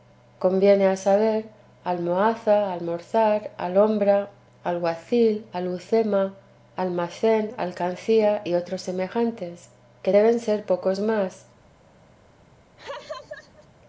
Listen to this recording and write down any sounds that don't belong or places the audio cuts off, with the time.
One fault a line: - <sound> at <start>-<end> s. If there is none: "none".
- laugh at 12.8-13.7 s